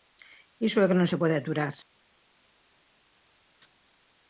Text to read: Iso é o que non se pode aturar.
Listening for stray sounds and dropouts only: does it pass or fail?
pass